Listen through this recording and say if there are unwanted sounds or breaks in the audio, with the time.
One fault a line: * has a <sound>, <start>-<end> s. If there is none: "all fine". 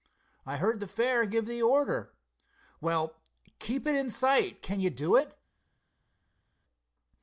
all fine